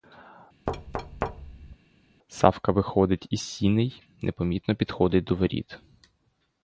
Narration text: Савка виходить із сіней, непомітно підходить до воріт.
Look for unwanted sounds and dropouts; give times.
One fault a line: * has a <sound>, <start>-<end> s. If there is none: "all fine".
* has a thud, 0.7-1.8 s